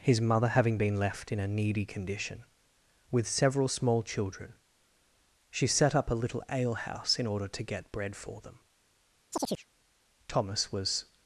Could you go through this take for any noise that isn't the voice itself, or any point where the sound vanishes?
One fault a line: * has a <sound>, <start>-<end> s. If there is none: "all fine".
* has a chirp, 9.3-9.7 s